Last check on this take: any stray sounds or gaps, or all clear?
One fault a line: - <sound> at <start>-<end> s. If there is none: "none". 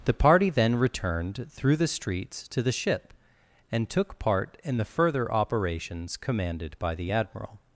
none